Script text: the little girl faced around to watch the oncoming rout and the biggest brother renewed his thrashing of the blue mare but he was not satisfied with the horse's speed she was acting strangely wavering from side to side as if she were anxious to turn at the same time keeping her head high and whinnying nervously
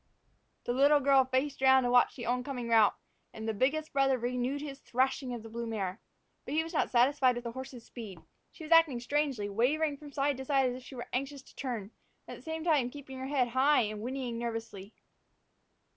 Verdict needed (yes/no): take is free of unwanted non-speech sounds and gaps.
yes